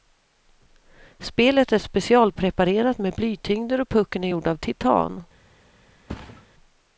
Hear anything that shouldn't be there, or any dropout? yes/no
yes